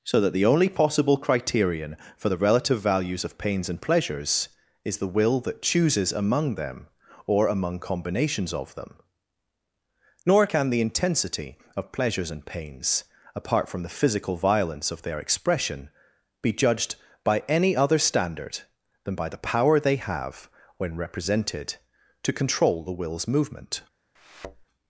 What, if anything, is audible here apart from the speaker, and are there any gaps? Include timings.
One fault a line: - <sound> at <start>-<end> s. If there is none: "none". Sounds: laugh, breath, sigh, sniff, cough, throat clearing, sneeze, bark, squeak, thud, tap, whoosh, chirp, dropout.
- thud at 24.1-24.6 s